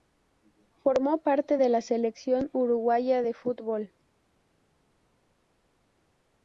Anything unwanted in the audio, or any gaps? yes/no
no